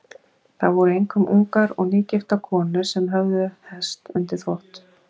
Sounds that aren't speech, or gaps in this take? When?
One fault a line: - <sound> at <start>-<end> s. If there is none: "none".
none